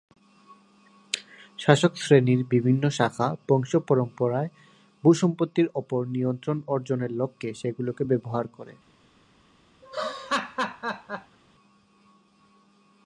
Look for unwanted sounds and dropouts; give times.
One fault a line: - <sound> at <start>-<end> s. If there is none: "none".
- laugh at 9.8-11.4 s